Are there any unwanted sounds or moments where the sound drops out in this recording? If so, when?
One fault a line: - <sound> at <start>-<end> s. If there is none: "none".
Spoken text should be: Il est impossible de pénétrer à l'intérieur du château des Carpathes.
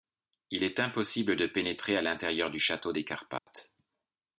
- dropout at 3.4-3.5 s